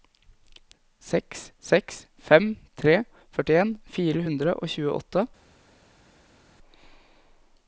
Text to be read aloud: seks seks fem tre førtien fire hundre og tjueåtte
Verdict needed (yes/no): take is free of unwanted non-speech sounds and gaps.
yes